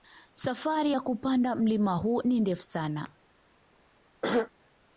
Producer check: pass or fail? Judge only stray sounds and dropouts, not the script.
fail